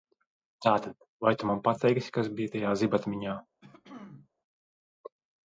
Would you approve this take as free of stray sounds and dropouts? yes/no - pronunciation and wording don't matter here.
no